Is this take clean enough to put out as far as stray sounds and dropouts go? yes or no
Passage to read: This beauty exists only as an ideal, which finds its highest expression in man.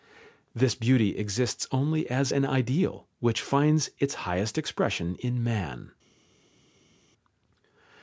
yes